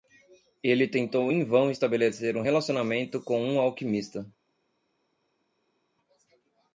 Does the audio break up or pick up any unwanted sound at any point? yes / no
no